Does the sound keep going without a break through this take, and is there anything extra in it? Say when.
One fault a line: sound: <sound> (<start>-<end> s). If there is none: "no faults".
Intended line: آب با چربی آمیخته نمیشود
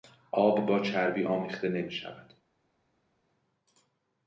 no faults